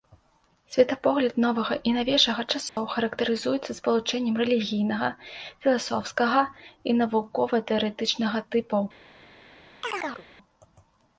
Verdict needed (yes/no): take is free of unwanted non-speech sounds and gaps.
no